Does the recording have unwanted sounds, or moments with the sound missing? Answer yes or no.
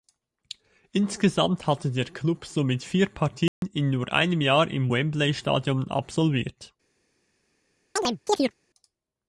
yes